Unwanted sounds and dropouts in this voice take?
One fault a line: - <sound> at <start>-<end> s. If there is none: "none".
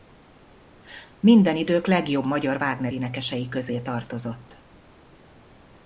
none